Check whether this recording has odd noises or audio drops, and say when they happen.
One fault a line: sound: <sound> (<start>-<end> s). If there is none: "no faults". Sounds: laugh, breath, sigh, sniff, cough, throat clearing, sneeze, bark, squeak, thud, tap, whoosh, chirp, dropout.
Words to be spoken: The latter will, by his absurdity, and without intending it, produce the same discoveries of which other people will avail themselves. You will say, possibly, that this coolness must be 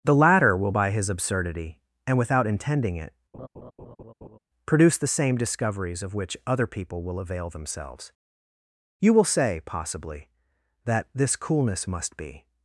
sound: laugh (3.3-4.4 s)